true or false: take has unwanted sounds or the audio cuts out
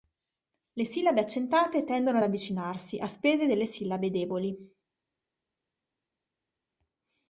false